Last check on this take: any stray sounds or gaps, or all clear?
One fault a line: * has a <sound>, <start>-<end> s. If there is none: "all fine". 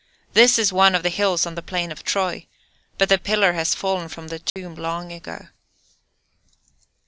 * has a dropout, 4.5-4.6 s